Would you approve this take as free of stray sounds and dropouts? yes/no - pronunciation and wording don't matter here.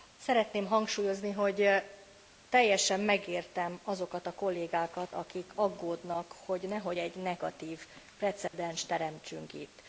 no